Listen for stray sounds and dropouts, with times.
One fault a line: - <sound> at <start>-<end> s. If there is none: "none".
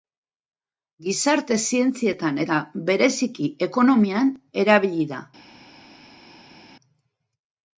none